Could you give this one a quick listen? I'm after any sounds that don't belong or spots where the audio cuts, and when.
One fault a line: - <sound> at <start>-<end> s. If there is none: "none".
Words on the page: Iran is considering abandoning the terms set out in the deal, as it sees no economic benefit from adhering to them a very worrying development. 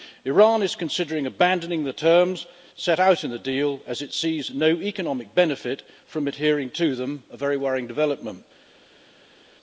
none